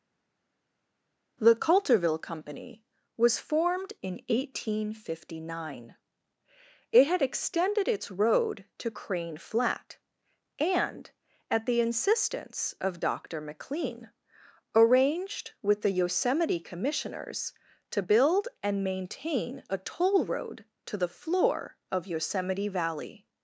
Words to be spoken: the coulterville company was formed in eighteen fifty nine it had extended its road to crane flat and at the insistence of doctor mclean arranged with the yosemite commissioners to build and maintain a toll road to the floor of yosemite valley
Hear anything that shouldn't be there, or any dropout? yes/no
no